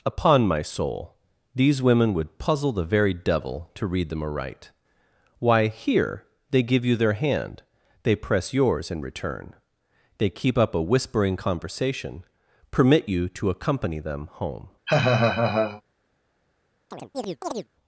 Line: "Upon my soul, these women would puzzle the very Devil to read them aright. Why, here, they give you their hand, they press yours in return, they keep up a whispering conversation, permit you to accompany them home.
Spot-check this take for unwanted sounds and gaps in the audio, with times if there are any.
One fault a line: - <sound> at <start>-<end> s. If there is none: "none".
- laugh at 14.9-15.8 s
- chirp at 16.9-17.7 s